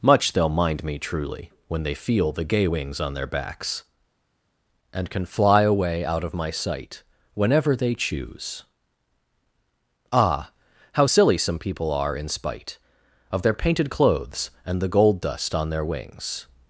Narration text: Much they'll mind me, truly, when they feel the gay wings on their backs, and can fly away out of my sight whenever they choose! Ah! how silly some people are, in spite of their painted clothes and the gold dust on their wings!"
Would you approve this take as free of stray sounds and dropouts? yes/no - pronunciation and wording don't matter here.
yes